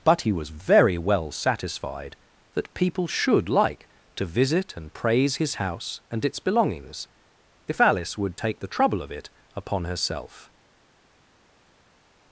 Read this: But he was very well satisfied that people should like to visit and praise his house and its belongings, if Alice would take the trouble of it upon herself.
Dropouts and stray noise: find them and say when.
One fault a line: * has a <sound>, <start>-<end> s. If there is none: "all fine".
all fine